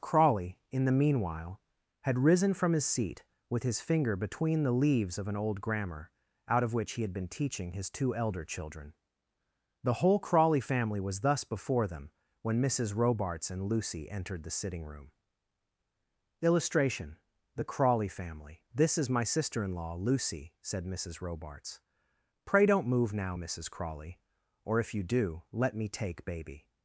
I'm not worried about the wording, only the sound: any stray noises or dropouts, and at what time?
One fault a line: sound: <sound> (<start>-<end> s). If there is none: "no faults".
no faults